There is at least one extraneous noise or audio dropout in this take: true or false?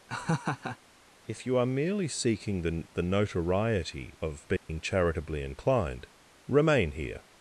true